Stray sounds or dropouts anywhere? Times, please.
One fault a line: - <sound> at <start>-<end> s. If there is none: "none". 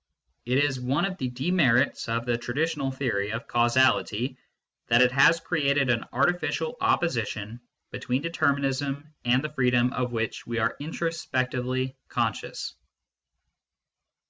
none